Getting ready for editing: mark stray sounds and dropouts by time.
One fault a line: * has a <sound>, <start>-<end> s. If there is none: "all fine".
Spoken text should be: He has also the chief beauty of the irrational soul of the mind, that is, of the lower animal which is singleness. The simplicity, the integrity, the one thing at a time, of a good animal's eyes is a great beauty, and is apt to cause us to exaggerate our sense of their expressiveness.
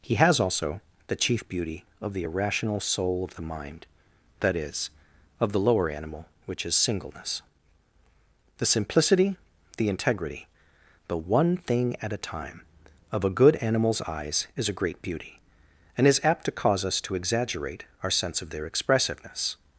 all fine